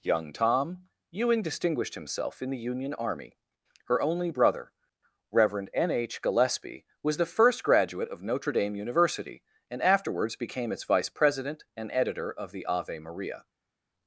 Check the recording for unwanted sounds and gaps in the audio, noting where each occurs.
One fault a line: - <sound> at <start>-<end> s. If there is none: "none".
none